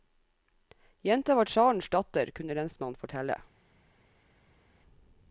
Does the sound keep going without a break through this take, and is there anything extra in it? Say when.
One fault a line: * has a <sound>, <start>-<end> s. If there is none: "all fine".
all fine